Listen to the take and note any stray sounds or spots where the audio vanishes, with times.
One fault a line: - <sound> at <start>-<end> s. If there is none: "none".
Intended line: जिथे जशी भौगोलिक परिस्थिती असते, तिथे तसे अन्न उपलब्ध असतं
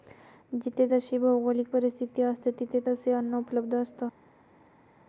none